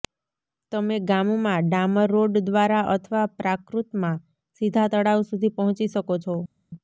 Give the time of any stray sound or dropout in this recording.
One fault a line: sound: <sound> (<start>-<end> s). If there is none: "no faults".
no faults